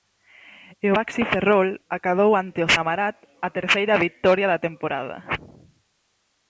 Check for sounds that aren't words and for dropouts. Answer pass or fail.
pass